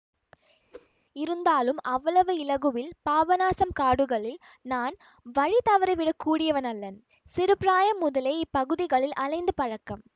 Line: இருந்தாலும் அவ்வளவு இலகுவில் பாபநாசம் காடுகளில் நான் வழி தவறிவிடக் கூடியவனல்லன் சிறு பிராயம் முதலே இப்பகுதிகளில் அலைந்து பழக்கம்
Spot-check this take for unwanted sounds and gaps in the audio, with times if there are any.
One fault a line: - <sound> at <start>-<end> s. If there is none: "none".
- whoosh at 0.7-0.9 s